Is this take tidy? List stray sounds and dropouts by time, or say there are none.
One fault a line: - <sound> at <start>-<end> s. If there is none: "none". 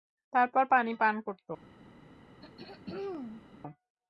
- throat clearing at 2.4-3.4 s